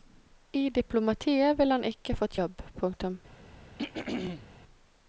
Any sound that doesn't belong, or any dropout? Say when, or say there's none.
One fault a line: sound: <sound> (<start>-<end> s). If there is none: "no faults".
sound: throat clearing (3.8-4.5 s)